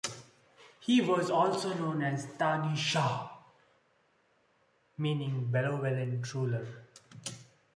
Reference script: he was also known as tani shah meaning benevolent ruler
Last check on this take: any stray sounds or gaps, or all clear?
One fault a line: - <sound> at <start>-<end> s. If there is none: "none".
none